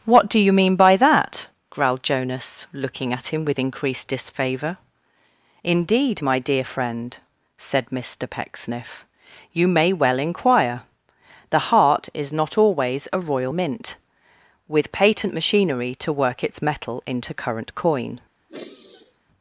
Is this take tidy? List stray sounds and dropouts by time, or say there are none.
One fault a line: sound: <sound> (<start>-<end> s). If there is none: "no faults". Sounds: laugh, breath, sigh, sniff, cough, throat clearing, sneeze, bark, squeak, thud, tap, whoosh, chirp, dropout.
sound: sigh (18.5-19.2 s)